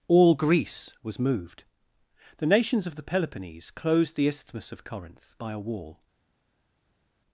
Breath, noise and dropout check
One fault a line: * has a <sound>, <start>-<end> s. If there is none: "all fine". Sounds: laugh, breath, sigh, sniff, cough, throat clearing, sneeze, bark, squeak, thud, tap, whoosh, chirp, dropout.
all fine